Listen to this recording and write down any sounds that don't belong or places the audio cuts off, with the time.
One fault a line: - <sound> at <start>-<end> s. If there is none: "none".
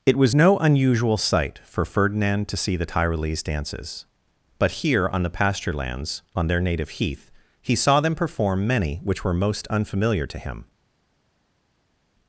none